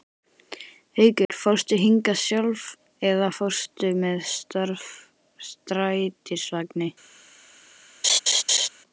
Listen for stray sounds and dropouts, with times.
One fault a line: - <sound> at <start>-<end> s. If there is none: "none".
- dropout at 1.3-1.3 s
- laugh at 8.0-8.7 s